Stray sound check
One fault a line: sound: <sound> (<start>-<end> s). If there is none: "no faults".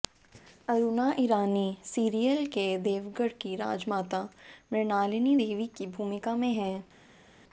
no faults